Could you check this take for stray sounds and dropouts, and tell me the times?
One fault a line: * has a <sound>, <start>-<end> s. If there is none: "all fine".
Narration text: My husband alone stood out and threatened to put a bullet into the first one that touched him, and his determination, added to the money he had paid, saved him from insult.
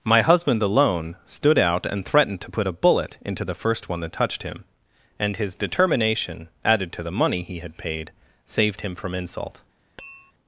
* has a tap, 10.0-10.3 s